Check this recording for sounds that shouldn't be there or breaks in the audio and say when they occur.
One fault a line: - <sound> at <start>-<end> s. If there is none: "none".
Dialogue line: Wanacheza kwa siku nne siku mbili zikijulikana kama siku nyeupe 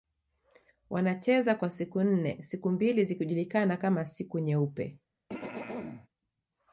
- throat clearing at 5.3-6.1 s